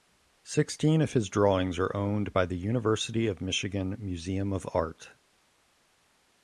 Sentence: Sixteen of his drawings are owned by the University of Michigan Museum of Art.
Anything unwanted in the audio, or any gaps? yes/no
no